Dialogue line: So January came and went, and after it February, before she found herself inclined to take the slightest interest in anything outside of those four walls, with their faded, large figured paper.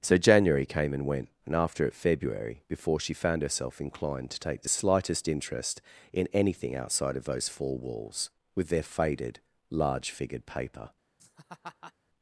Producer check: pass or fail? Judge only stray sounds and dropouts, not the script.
fail